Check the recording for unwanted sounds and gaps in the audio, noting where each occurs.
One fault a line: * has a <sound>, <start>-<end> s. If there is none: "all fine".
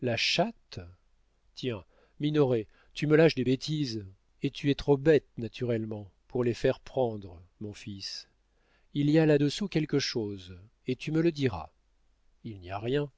all fine